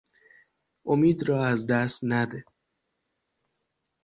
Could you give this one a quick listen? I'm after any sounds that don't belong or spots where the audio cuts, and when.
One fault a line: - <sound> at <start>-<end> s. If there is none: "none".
none